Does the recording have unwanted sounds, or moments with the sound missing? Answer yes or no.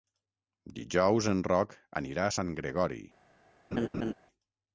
yes